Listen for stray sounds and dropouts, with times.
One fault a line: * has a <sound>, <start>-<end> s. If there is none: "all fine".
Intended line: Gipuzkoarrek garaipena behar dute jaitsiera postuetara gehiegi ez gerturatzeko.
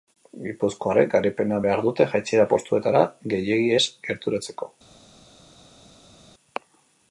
all fine